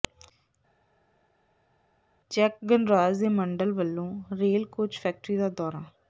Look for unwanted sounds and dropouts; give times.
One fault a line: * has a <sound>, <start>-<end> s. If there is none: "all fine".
all fine